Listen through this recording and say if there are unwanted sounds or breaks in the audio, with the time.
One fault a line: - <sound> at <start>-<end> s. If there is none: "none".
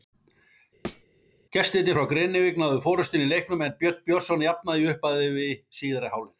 - thud at 0.8-1.0 s